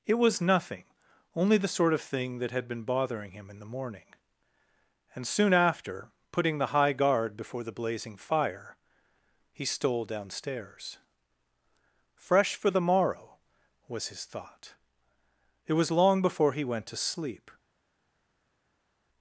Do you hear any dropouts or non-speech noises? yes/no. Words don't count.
no